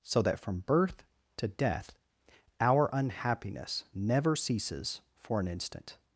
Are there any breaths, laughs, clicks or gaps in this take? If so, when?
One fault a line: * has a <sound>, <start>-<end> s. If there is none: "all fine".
all fine